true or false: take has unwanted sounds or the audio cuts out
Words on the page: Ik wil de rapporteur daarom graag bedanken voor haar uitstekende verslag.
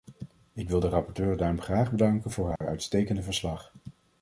true